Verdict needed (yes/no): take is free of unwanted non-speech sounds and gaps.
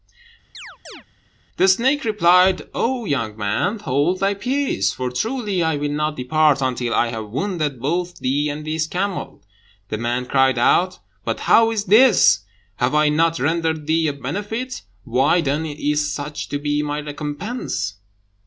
no